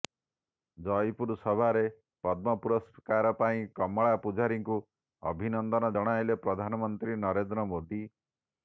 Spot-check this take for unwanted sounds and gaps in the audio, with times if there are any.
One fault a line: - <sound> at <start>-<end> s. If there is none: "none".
none